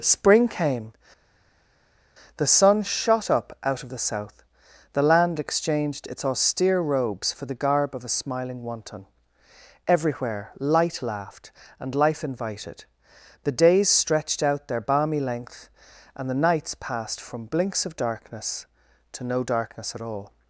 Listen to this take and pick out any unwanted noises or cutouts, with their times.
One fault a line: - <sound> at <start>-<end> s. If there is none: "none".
none